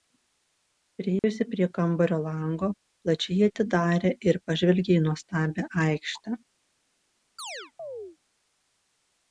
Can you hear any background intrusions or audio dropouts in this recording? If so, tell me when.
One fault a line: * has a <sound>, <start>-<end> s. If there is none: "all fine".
* has a dropout, 1.2-1.2 s
* has a chirp, 7.4-8.2 s